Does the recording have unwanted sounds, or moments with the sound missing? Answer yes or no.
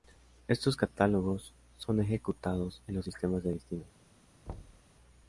yes